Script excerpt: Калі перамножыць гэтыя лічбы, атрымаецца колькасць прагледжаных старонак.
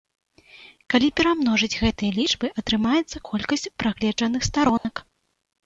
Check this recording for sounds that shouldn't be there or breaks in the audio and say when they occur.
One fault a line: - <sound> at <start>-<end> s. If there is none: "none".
- dropout at 4.8-4.8 s